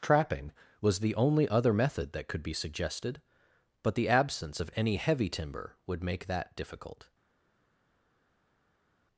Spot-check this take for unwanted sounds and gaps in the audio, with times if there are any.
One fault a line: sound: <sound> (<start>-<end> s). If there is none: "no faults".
no faults